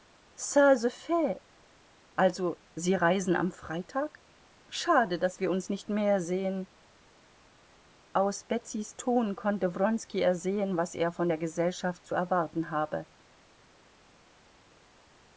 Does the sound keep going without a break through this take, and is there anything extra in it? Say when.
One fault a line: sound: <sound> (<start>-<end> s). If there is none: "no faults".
no faults